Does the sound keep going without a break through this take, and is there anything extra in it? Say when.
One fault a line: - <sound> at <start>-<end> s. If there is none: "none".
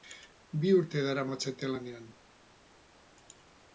none